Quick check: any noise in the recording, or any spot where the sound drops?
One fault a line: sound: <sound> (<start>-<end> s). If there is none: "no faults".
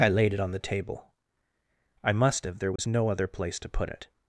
sound: dropout (2.8-2.8 s)